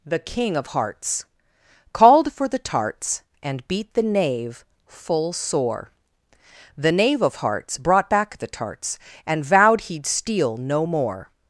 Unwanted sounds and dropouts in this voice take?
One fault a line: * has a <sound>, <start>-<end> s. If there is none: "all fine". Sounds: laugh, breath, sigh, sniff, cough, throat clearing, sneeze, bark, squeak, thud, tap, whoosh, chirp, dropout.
all fine